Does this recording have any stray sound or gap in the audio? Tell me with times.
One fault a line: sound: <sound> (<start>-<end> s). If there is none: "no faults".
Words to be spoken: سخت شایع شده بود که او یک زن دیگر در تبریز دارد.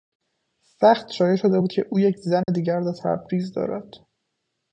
sound: dropout (2.4-2.5 s)